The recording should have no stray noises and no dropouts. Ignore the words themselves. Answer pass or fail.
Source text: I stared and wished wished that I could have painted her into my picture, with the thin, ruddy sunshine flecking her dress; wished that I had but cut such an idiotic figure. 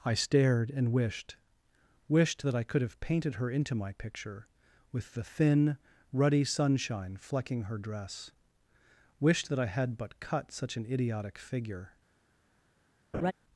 fail